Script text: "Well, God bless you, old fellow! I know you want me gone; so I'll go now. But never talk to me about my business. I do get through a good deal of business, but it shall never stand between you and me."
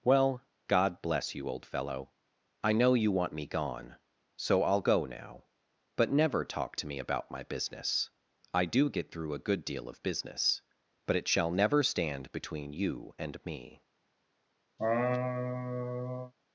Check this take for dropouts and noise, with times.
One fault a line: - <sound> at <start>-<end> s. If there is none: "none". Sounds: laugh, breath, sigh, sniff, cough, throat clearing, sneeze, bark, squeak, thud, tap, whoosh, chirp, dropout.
- laugh at 14.8-16.3 s